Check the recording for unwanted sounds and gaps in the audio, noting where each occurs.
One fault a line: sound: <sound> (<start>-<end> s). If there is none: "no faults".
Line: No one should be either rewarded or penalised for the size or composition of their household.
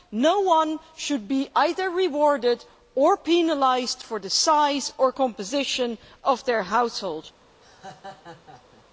sound: laugh (7.6-8.9 s)